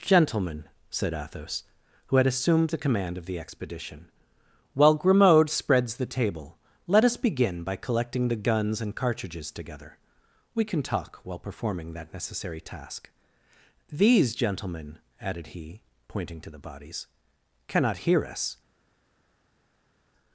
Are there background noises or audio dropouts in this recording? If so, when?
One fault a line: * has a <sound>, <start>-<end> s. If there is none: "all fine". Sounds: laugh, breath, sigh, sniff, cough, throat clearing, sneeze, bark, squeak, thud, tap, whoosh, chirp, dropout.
all fine